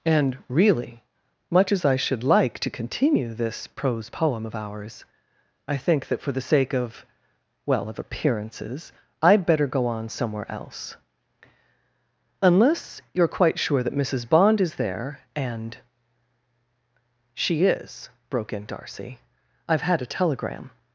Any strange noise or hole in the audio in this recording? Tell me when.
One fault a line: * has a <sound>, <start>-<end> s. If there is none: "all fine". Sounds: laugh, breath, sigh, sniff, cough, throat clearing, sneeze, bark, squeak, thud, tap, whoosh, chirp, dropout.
all fine